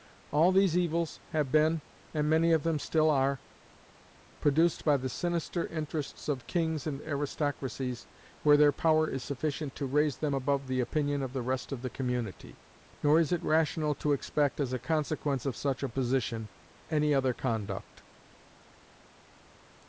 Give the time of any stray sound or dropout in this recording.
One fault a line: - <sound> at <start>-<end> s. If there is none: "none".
none